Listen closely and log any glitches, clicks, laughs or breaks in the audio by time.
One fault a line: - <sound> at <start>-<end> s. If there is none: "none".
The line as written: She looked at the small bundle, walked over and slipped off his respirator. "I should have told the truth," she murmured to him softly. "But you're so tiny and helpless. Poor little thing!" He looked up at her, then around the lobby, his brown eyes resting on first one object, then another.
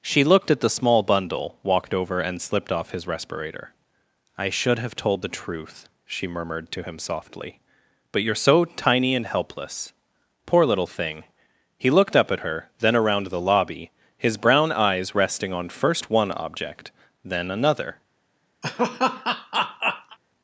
- laugh at 18.6-20.2 s